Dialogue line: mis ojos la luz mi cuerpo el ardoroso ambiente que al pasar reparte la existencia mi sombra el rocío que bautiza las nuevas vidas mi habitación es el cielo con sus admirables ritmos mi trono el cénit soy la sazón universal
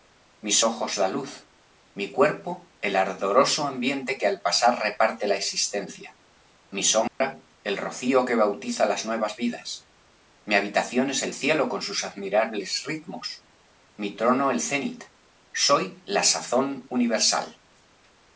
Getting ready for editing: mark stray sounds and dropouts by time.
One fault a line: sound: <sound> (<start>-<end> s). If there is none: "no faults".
sound: dropout (7.1-7.2 s)